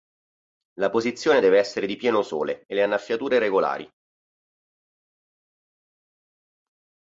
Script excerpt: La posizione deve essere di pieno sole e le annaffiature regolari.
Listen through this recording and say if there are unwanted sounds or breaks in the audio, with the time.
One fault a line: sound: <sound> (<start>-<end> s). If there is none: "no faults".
no faults